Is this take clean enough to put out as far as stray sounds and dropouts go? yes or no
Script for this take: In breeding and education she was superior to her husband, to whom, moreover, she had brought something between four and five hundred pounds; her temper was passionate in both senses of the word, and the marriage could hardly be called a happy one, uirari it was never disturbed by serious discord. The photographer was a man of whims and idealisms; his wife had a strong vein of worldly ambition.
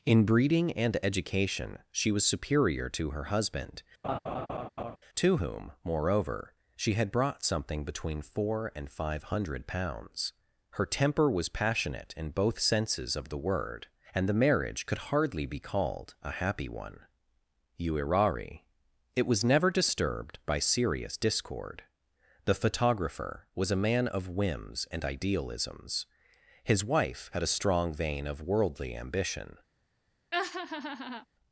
no